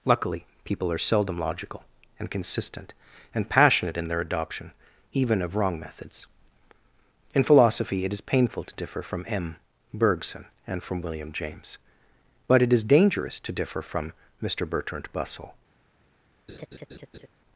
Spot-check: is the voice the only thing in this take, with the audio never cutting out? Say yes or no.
no